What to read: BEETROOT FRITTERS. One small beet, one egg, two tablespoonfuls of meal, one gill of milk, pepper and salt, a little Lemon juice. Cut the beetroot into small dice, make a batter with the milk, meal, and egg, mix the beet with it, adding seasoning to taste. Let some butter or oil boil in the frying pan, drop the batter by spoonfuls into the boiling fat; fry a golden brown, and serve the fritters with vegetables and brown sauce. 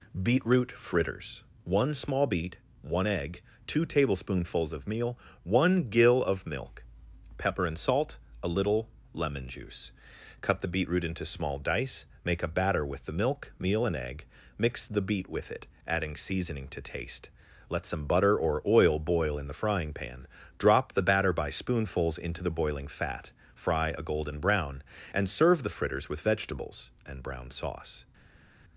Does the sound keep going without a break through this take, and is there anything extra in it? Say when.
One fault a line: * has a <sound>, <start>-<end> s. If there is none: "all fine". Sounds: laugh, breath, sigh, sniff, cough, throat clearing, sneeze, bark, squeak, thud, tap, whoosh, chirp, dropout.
all fine